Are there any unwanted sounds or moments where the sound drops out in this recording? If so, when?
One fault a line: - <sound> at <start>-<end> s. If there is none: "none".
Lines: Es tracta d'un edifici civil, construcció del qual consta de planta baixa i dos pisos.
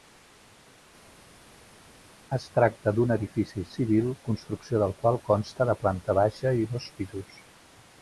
none